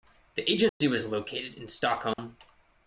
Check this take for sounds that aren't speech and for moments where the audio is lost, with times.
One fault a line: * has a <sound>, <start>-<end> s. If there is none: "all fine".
* has a dropout, 0.7-0.8 s
* has a dropout, 2.1-2.2 s